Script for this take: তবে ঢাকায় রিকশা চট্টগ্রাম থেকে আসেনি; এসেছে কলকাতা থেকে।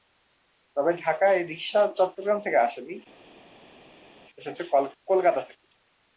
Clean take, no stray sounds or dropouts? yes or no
yes